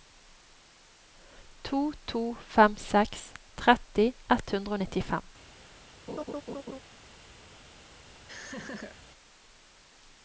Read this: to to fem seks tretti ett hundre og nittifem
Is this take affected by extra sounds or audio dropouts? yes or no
yes